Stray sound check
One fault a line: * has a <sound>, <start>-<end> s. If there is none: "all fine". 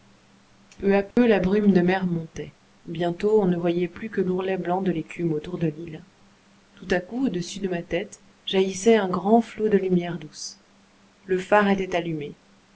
* has a dropout, 1.1-1.2 s